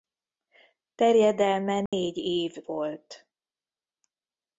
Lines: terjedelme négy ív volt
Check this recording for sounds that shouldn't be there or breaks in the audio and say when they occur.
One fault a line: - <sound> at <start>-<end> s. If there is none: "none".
- dropout at 1.9-1.9 s